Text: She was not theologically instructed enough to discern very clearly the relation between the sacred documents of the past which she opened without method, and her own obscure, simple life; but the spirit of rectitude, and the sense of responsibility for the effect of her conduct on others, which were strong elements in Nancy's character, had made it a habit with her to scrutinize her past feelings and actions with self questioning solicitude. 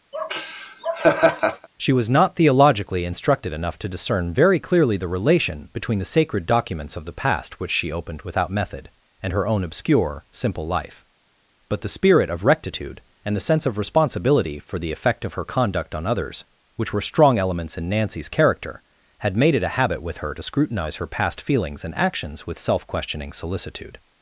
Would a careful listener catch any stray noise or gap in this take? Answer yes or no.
yes